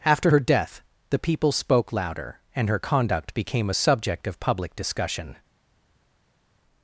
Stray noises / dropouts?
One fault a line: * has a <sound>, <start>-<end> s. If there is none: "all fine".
all fine